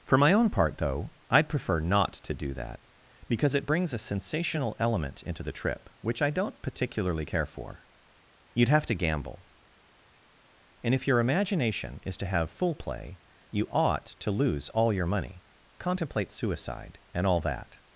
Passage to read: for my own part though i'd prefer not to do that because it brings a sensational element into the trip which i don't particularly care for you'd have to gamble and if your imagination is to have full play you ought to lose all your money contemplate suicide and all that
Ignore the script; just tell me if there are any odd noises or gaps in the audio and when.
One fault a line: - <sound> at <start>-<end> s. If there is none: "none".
none